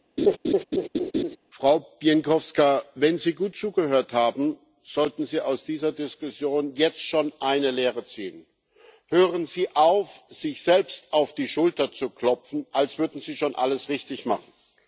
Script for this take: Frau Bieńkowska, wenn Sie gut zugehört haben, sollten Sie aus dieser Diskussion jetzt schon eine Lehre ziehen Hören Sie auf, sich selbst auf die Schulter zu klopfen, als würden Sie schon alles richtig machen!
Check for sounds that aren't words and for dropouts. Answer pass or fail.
fail